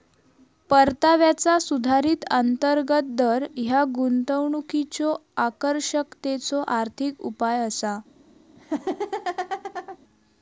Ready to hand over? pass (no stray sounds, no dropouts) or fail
fail